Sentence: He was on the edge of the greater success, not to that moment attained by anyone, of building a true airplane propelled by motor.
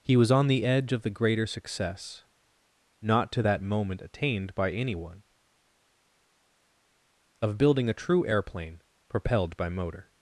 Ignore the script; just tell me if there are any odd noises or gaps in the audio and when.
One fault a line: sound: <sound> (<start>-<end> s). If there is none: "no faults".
no faults